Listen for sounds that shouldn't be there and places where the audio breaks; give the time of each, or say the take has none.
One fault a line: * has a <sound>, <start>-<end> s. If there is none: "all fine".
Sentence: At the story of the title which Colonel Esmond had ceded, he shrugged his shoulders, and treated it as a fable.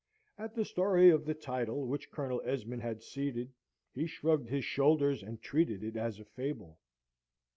all fine